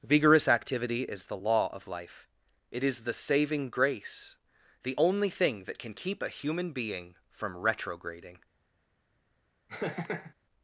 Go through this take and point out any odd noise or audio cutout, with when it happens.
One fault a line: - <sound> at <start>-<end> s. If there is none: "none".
- laugh at 9.7-10.3 s